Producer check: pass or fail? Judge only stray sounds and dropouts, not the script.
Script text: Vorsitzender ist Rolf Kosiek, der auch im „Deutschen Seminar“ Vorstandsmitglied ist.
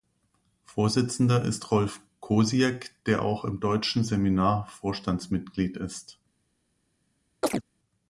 fail